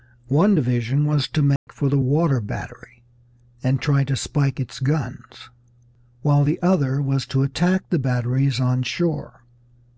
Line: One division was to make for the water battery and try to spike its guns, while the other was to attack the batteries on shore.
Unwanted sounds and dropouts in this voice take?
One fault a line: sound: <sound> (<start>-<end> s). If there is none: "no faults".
sound: dropout (1.6-1.7 s)